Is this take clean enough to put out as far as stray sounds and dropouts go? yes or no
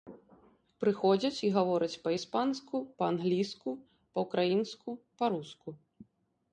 yes